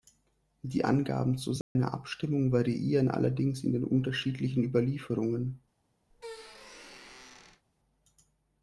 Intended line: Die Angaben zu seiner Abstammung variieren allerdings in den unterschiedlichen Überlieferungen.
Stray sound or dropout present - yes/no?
yes